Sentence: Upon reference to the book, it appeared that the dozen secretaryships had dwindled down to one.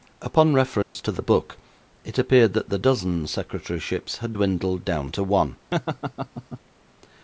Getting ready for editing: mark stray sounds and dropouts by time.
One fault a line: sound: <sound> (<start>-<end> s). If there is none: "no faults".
sound: dropout (0.8-1.0 s)
sound: laugh (5.7-6.6 s)